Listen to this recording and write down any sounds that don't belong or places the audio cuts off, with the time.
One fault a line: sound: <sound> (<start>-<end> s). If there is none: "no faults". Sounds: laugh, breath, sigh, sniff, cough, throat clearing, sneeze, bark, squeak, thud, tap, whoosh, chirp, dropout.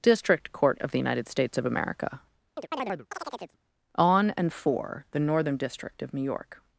sound: chirp (2.6-3.6 s)